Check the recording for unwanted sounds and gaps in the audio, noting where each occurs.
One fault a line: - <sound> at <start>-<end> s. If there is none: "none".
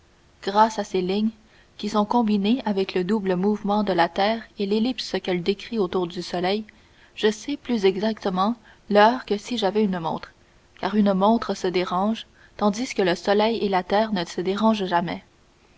none